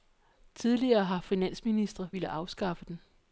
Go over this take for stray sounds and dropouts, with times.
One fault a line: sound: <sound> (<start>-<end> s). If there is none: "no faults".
no faults